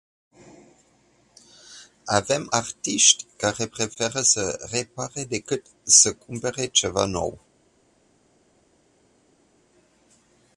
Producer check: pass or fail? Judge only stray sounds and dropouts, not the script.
pass